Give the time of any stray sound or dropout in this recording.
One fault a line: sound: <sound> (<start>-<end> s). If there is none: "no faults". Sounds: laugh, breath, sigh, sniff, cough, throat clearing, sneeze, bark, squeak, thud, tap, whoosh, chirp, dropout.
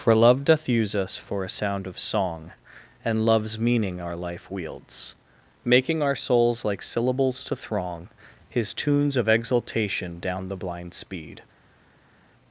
no faults